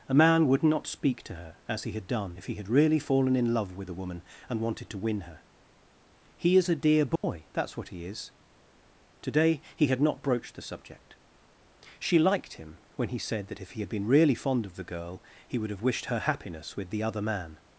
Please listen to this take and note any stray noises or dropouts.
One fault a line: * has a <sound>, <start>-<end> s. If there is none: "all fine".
* has a dropout, 7.2-7.2 s